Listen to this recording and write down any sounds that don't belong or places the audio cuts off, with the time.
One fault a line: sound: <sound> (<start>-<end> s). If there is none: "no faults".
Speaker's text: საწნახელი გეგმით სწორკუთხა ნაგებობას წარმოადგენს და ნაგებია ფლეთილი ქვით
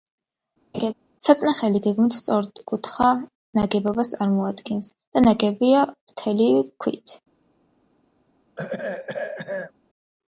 sound: laugh (0.7-0.9 s)
sound: throat clearing (8.6-9.7 s)